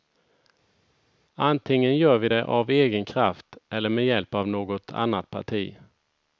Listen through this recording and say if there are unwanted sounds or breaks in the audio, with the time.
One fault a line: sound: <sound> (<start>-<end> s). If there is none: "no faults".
no faults